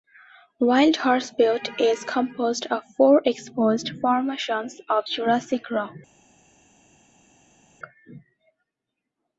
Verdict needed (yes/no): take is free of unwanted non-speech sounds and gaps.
yes